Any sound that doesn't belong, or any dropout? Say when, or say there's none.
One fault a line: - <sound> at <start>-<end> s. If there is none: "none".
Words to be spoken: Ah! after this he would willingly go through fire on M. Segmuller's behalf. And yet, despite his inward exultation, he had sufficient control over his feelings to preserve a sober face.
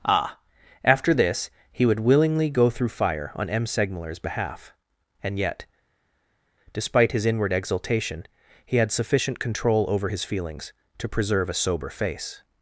none